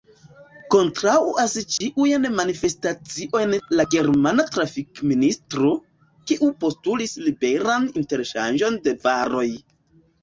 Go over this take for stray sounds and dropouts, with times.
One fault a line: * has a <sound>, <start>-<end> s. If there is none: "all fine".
* has a dropout, 1.8-1.8 s